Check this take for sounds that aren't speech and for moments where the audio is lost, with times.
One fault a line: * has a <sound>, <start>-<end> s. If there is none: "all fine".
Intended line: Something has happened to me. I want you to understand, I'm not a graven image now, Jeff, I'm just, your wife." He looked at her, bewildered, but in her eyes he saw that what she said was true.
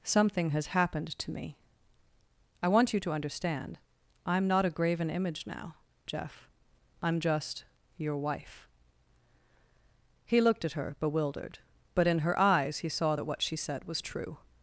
all fine